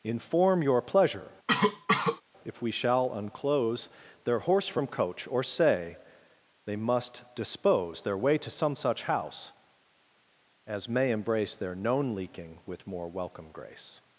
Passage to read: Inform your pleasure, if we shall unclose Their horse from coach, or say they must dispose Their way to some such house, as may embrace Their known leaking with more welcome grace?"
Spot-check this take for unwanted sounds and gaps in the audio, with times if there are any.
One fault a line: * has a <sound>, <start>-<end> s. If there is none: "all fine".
* has a cough, 1.5-2.2 s